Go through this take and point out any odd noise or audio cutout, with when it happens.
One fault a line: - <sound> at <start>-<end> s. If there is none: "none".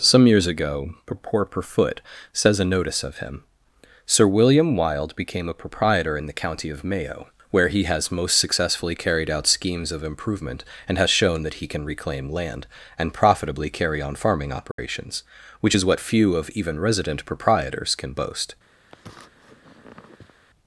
- dropout at 14.7-14.8 s
- sniff at 18.9-20.4 s